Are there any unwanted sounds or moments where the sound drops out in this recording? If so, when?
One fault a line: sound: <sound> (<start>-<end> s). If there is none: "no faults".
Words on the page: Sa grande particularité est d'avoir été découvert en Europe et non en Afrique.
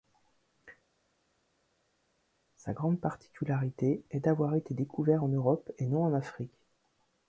no faults